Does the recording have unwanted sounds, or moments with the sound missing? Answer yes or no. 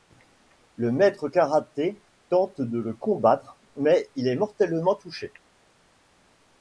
no